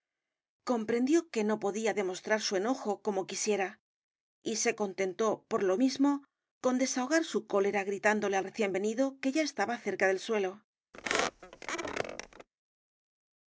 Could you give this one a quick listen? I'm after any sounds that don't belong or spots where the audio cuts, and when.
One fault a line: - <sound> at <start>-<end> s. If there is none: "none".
- squeak at 10.9-12.5 s